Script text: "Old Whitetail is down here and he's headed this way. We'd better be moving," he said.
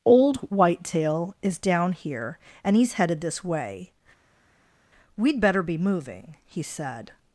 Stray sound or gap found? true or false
false